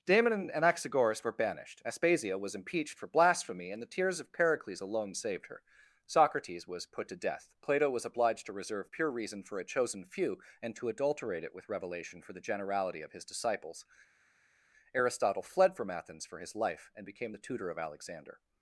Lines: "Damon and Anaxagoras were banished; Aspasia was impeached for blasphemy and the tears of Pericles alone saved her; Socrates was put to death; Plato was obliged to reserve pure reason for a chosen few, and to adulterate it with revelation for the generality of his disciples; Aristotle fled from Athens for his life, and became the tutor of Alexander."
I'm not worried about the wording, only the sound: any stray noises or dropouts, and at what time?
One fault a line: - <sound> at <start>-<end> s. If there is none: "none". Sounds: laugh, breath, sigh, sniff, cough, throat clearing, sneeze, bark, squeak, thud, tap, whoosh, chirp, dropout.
none